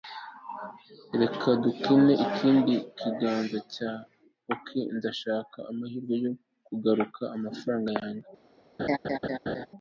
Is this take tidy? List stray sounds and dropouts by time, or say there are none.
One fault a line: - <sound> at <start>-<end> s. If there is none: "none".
- laugh at 8.8-9.7 s